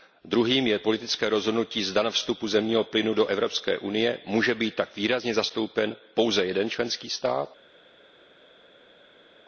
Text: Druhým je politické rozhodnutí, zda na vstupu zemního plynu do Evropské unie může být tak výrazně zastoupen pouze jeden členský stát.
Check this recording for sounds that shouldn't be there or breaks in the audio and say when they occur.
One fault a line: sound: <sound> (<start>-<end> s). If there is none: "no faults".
no faults